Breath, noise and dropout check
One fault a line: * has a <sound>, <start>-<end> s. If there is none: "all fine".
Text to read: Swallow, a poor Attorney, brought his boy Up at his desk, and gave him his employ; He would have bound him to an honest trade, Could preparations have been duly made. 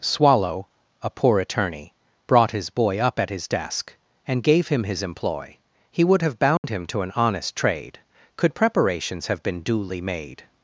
* has a dropout, 6.6-6.6 s